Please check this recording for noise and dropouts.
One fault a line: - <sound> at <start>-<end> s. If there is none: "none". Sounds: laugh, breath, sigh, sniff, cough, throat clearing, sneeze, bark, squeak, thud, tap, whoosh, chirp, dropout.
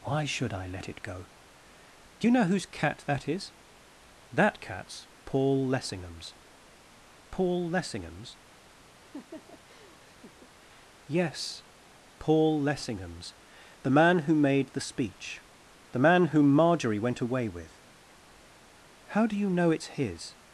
- laugh at 9.0-10.5 s